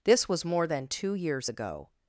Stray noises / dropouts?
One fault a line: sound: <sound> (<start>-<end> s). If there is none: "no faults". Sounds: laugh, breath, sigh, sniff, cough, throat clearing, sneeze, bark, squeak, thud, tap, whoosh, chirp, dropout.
no faults